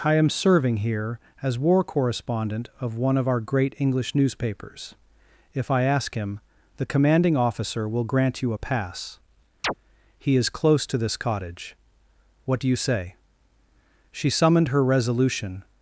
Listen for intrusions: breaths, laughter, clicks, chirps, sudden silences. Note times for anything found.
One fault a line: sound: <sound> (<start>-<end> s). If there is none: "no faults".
sound: chirp (9.6-9.7 s)